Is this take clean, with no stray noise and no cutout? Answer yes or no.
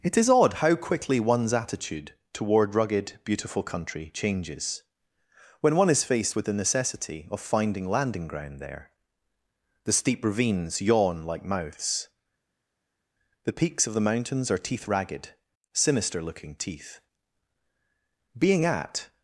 yes